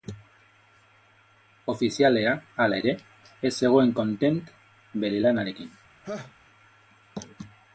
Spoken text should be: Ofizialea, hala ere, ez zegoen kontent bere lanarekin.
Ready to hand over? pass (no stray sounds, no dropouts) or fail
fail